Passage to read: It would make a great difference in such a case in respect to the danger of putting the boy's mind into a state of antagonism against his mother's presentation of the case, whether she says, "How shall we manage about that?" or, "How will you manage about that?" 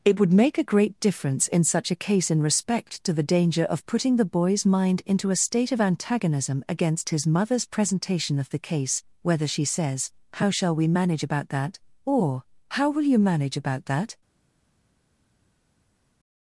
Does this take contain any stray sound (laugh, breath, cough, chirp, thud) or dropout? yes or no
no